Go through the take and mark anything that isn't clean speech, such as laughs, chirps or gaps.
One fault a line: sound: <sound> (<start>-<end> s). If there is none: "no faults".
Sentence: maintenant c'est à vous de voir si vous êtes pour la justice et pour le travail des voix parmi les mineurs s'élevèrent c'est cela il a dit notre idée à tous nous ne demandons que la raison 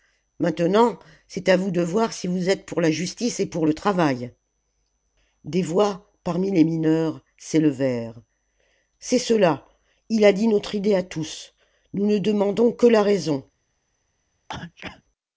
sound: sneeze (14.5-15.0 s)